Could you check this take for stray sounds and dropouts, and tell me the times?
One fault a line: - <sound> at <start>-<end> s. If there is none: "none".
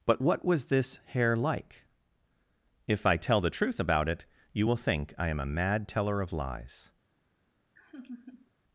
- laugh at 7.8-8.5 s